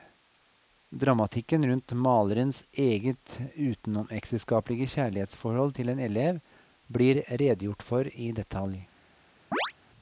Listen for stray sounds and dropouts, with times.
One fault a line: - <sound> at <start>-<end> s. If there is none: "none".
- chirp at 9.5-9.7 s